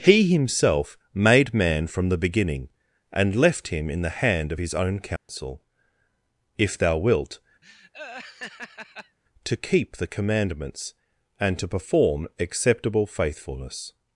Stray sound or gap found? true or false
true